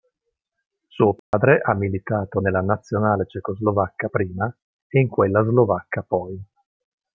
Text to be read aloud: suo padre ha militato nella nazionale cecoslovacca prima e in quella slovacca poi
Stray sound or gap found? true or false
true